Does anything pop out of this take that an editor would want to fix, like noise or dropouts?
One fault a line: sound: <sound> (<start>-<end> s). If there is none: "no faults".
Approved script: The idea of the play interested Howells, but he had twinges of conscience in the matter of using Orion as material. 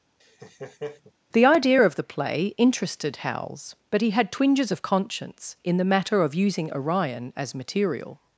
sound: laugh (0.2-1.1 s)